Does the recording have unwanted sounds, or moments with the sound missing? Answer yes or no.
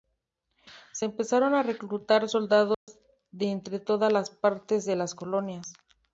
yes